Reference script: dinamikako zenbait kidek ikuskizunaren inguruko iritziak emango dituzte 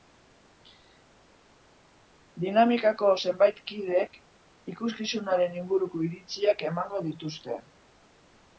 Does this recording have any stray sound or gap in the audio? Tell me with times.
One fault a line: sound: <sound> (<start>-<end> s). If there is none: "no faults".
no faults